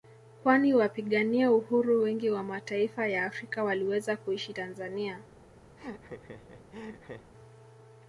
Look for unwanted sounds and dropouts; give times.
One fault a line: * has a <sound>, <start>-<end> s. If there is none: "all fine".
* has a laugh, 5.8-7.3 s